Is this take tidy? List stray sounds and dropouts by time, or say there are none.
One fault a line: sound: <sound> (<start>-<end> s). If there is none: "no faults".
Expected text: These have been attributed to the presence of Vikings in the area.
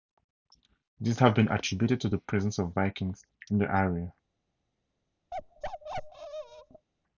sound: bark (5.3-6.9 s)